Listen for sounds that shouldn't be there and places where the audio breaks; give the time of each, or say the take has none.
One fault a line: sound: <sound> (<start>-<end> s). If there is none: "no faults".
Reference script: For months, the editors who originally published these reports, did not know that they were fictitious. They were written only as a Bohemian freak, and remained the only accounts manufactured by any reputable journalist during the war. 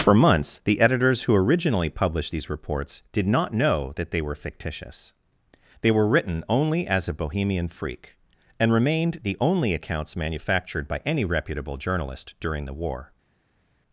no faults